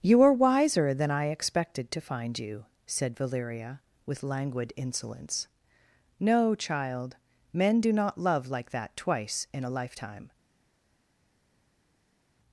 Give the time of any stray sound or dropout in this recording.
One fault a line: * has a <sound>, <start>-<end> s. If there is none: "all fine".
all fine